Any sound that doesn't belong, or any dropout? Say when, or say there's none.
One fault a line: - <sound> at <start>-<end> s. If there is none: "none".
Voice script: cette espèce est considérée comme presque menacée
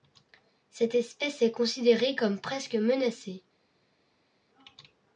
none